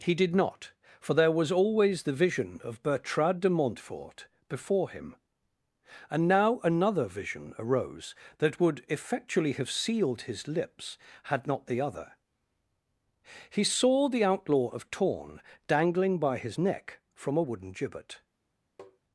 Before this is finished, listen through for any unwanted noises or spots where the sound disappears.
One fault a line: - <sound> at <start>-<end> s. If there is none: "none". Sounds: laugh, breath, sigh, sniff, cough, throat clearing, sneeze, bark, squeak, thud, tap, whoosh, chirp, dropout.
- tap at 18.8-19.0 s